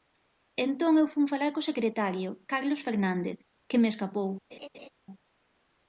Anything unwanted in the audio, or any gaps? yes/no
yes